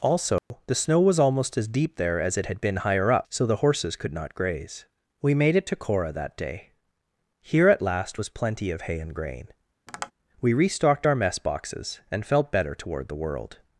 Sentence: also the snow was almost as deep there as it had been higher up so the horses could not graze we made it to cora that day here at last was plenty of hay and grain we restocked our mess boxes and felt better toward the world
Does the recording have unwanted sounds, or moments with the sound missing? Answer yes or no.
yes